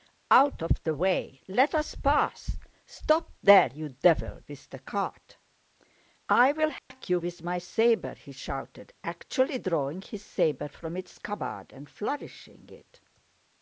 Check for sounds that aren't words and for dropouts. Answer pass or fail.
fail